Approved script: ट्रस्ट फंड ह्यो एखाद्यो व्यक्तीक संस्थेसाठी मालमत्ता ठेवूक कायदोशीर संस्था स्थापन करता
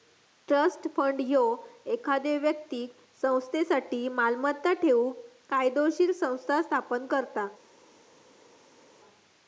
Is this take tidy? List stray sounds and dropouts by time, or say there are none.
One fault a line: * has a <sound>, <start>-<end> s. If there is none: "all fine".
all fine